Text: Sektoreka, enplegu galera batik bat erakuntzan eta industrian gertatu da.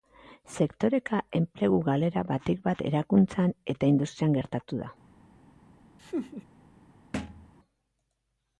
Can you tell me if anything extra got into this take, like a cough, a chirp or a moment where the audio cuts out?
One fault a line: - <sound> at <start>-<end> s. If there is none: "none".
- laugh at 6.0-6.4 s
- thud at 7.1-7.5 s